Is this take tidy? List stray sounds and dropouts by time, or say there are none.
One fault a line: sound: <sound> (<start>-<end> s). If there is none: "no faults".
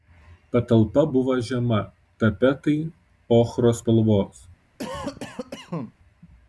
sound: cough (4.8-5.9 s)